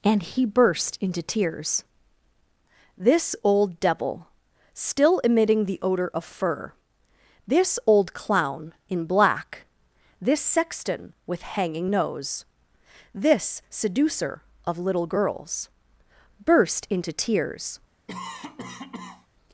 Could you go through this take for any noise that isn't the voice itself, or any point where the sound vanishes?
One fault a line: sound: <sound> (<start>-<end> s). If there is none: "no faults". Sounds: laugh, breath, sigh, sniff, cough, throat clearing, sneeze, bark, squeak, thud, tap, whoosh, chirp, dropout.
sound: cough (18.1-19.3 s)